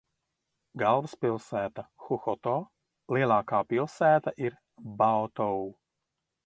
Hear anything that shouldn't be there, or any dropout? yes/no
no